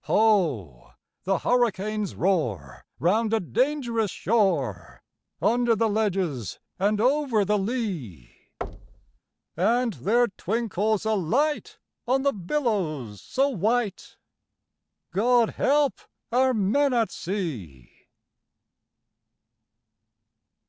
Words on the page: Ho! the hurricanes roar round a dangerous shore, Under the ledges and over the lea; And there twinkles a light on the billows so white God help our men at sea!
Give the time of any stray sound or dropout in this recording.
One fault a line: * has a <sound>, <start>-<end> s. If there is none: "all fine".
* has a thud, 8.6-9.2 s